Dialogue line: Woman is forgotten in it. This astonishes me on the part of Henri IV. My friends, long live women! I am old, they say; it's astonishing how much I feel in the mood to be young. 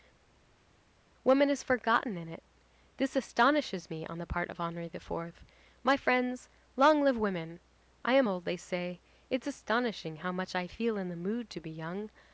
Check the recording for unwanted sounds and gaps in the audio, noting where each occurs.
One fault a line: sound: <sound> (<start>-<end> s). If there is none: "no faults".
no faults